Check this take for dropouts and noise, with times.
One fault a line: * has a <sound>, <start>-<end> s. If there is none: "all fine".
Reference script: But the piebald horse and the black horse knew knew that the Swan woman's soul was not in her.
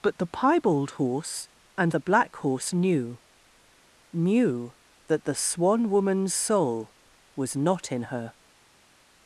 all fine